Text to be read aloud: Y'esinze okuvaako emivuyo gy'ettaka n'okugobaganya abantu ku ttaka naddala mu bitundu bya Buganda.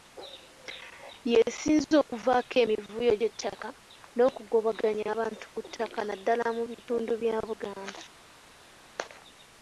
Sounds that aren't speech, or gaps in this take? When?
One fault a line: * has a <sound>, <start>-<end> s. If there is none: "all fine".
all fine